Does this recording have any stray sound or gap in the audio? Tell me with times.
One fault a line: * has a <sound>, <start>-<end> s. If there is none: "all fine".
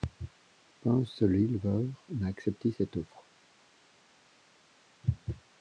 all fine